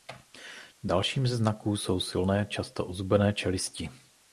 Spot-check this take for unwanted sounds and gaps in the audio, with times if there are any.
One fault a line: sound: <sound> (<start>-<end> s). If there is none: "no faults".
no faults